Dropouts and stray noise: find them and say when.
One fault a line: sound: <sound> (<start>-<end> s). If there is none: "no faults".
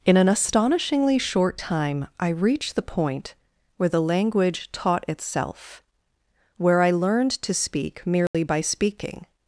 sound: dropout (8.3-8.3 s)